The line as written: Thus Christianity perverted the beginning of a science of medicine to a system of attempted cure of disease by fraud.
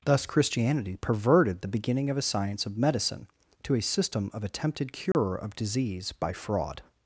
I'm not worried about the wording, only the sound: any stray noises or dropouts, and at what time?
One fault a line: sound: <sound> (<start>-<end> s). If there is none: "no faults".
sound: dropout (5.1-5.1 s)